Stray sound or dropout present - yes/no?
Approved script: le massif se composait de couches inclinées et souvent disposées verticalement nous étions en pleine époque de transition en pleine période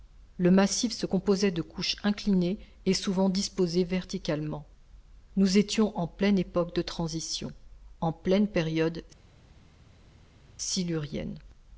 no